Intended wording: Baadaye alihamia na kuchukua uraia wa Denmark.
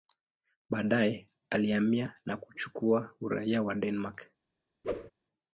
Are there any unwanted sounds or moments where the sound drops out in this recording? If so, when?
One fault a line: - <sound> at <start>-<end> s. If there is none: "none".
- whoosh at 4.8-5.1 s